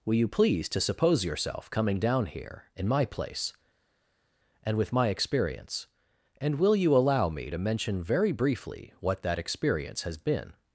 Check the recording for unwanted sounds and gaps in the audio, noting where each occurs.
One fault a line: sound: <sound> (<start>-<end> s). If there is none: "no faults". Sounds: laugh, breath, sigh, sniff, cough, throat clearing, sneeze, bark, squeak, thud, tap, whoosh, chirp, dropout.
no faults